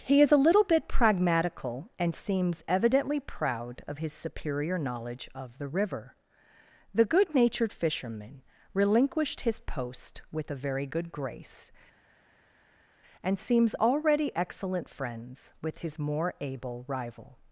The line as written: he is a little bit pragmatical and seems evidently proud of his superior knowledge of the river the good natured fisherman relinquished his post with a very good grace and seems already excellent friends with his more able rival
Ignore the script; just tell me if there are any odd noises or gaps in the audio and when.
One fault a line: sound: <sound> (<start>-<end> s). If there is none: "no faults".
no faults